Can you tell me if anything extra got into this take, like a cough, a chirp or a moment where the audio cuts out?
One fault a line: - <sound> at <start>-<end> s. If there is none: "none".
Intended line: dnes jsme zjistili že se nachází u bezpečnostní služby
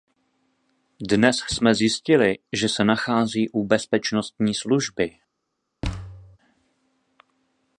- thud at 5.8-6.4 s